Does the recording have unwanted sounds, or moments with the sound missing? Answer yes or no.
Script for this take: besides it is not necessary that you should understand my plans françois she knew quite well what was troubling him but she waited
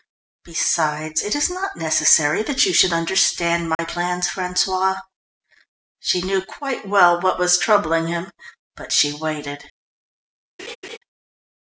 yes